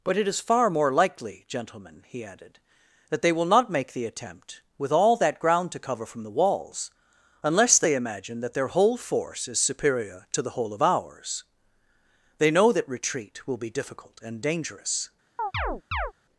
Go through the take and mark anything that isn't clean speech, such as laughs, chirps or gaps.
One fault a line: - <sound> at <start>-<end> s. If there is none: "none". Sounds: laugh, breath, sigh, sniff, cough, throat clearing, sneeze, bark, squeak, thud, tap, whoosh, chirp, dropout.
- chirp at 15.4-16.1 s